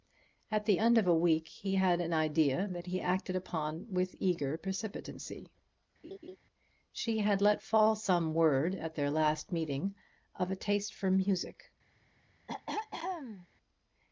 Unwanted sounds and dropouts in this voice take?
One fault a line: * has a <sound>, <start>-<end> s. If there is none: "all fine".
* has a laugh, 6.0-6.4 s
* has a throat clearing, 12.5-13.5 s